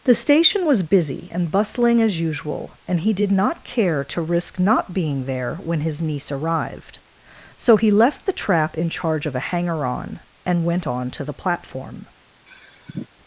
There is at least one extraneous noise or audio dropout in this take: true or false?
true